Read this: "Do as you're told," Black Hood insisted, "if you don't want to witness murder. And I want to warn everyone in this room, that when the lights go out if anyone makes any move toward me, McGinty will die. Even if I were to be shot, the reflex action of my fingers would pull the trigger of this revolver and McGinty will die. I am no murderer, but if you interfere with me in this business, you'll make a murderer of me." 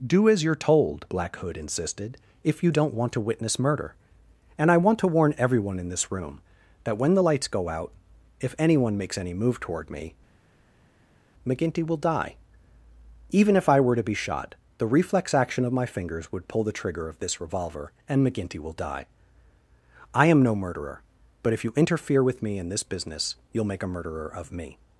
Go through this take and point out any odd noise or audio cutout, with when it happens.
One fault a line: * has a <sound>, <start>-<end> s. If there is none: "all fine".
all fine